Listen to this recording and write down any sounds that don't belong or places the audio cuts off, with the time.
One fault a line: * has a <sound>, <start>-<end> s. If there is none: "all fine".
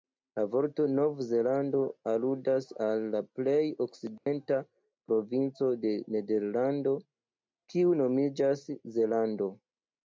* has a dropout, 4.2-4.3 s